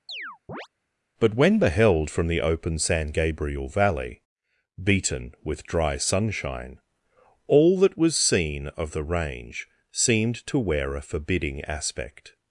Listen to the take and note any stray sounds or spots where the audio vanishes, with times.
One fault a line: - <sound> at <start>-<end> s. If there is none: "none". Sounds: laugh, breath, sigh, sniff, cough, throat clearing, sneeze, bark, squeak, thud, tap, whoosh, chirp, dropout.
- chirp at 0.1-0.7 s